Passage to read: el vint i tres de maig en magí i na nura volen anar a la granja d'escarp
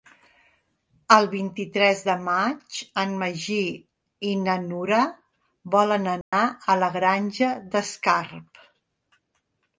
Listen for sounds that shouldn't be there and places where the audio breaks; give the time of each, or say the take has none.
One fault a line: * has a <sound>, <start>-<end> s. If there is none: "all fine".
* has a dropout, 6.2-6.3 s